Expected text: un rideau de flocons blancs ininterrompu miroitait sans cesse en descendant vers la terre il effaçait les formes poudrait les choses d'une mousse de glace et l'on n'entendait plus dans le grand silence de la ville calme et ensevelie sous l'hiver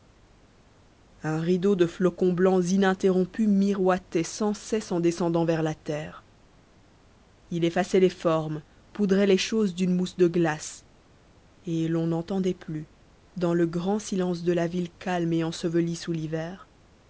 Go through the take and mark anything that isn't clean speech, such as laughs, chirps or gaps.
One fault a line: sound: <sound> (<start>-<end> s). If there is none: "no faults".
no faults